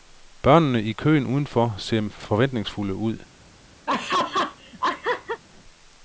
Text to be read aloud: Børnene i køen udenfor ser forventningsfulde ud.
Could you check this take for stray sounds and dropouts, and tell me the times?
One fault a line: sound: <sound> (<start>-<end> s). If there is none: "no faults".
sound: laugh (3.9-5.4 s)